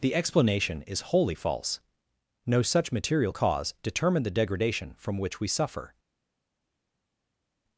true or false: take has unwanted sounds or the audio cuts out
false